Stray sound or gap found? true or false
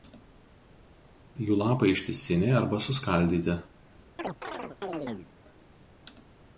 true